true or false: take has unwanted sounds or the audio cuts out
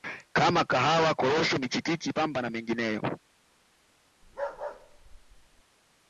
true